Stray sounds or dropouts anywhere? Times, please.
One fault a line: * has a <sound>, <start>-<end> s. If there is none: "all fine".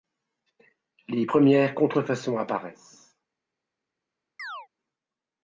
* has a chirp, 4.4-4.7 s